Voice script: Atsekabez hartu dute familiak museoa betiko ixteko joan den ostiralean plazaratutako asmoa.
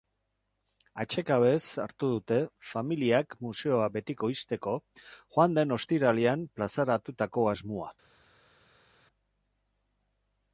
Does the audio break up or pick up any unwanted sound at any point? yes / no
no